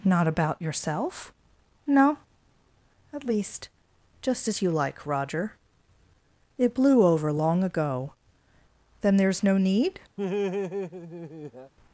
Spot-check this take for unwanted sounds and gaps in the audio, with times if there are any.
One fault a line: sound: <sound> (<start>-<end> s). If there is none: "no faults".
sound: laugh (10.2-11.7 s)